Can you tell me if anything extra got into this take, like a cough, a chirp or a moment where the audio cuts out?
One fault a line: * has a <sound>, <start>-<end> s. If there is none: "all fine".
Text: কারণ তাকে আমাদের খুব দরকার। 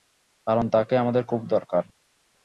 all fine